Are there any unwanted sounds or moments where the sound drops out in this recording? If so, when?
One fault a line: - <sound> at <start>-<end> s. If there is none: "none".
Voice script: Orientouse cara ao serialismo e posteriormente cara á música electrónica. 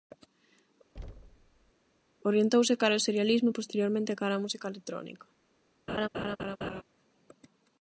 - thud at 0.9-1.7 s
- laugh at 5.9-6.8 s